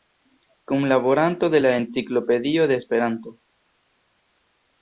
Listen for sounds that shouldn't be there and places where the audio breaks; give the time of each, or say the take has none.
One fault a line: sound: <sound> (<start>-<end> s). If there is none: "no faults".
no faults